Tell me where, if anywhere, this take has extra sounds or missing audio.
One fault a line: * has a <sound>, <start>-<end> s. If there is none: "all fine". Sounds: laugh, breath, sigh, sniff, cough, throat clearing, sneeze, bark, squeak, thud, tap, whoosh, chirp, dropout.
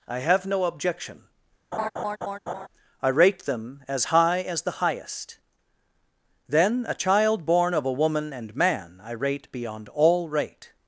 * has a laugh, 1.7-2.7 s